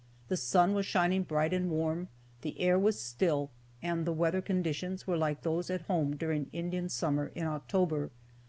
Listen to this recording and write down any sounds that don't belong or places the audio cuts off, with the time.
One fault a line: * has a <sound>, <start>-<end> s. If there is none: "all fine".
all fine